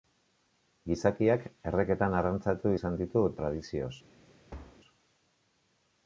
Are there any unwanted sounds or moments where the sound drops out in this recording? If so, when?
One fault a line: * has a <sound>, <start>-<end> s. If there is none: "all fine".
* has a thud, 4.5-4.8 s